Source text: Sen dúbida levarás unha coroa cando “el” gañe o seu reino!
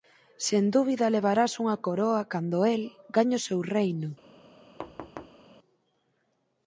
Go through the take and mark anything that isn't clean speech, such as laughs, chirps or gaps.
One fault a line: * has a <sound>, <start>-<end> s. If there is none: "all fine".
* has a thud, 4.8-5.4 s